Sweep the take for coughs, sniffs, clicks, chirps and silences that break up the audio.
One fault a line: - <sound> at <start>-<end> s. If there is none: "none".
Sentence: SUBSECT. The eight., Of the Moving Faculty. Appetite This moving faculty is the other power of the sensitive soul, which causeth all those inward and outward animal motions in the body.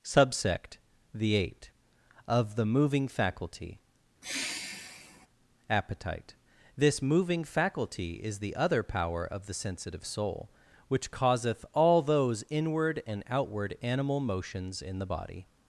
- sigh at 4.2-5.3 s